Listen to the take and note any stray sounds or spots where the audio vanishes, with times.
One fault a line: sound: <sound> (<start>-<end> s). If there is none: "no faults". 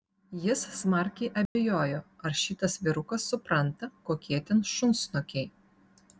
sound: dropout (1.5-1.6 s)